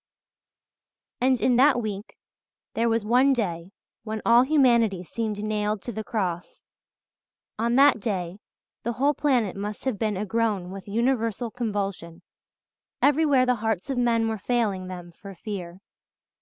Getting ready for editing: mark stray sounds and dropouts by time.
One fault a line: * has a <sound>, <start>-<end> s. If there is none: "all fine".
all fine